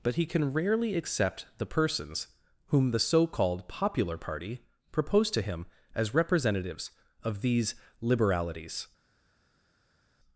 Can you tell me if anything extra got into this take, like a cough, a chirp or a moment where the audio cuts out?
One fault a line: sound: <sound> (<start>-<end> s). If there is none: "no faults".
no faults